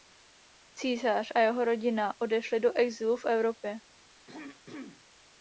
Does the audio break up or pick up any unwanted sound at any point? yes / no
yes